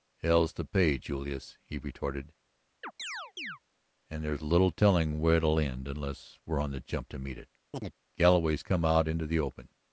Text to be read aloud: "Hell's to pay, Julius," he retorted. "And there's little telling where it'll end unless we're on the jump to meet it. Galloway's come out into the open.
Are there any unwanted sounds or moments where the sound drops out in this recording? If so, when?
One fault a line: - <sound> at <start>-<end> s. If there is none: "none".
- chirp at 2.8-3.6 s
- chirp at 7.7-7.9 s